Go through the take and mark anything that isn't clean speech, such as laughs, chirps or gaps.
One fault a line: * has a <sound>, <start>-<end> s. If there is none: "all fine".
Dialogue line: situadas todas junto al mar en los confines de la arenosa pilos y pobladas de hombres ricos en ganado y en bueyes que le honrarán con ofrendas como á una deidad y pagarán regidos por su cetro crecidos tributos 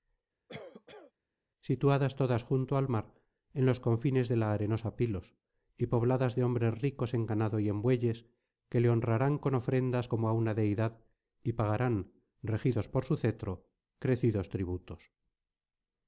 * has a cough, 0.5-1.1 s